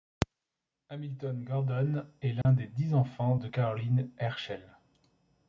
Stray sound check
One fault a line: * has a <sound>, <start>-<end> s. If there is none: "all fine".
* has a dropout, 2.4-2.5 s